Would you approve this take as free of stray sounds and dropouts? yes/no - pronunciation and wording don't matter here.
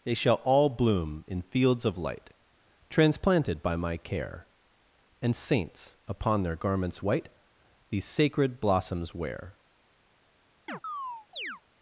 no